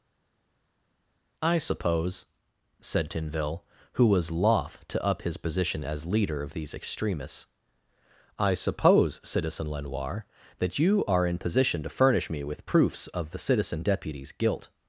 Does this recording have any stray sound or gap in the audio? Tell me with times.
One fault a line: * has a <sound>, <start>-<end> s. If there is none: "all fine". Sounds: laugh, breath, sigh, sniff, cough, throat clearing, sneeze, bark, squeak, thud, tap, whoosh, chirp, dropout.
all fine